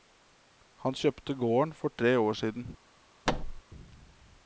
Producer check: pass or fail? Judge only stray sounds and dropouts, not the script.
fail